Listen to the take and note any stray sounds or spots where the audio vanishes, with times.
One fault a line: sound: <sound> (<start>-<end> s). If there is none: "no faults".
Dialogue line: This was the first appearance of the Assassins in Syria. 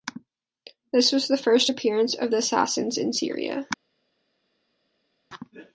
no faults